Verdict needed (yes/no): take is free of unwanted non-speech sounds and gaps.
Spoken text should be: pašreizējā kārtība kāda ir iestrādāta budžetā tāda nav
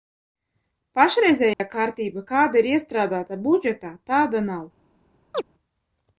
no